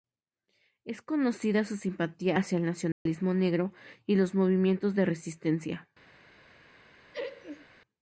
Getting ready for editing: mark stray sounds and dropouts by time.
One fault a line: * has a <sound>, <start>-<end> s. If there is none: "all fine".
* has a dropout, 2.9-3.1 s
* has a laugh, 7.1-7.7 s